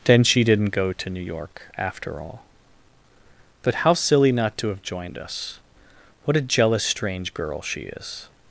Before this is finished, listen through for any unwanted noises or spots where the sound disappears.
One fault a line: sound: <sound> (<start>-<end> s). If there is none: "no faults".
no faults